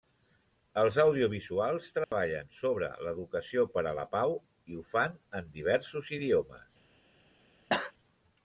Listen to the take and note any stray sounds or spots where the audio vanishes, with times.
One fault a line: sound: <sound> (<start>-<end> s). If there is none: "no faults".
sound: dropout (2.0-2.1 s)
sound: cough (7.7-7.9 s)